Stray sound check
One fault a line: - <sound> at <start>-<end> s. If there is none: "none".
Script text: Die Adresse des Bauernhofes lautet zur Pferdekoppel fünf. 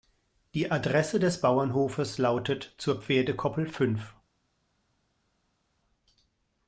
none